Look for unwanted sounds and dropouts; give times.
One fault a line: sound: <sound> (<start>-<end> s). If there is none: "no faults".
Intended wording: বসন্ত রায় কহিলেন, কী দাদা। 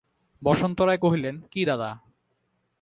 no faults